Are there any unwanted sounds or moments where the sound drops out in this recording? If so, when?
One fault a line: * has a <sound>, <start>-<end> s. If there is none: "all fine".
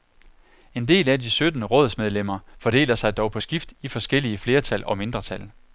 all fine